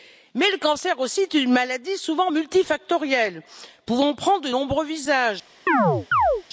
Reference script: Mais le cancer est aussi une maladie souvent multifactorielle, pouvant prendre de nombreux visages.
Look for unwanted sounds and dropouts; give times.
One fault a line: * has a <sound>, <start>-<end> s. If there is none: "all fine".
* has a chirp, 5.7-6.4 s